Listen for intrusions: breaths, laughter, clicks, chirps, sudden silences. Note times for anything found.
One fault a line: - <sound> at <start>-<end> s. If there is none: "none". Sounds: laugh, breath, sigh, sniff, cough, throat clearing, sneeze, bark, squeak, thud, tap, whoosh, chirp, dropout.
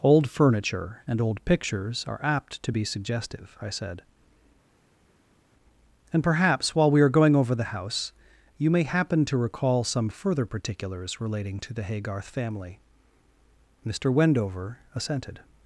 none